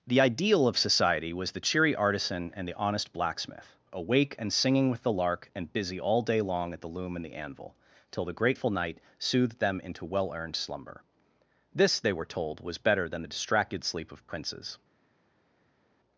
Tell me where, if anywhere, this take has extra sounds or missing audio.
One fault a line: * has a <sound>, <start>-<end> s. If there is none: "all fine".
all fine